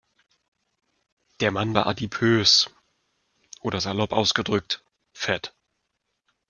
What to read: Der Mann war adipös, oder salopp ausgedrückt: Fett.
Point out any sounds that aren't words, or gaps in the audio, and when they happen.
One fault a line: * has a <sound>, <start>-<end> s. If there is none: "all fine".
all fine